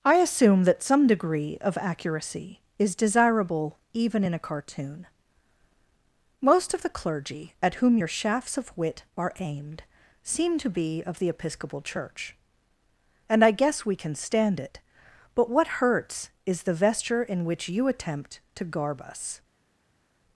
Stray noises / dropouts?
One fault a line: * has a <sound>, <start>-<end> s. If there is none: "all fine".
all fine